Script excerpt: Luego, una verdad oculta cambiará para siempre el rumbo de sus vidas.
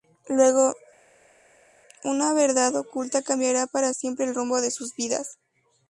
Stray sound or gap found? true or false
false